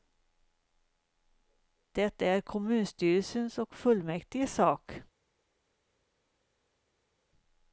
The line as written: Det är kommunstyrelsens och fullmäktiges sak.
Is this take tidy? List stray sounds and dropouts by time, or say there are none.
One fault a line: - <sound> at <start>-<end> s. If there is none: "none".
none